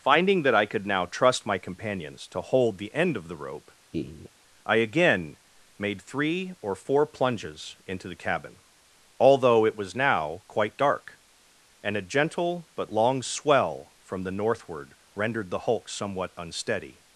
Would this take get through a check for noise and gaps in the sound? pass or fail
fail